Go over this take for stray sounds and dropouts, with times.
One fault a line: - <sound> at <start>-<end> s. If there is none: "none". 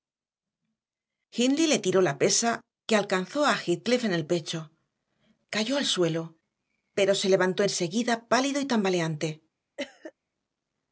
- cough at 9.8-10.1 s